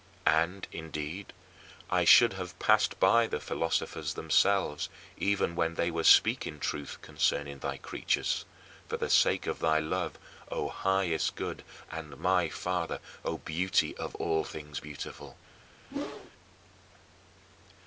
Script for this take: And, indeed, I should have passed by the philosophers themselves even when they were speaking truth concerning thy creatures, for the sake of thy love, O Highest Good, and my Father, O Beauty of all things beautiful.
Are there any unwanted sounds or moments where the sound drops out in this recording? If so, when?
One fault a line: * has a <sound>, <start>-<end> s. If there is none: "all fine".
* has a whoosh, 15.9-16.3 s